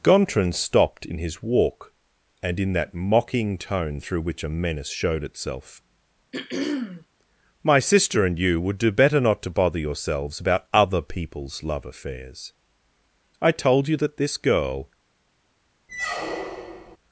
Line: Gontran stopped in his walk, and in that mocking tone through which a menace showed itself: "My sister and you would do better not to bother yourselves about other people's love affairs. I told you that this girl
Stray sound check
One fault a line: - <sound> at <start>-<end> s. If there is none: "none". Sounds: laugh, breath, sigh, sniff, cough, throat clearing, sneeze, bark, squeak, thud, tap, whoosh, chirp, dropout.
- throat clearing at 6.3-7.1 s
- squeak at 15.9-17.0 s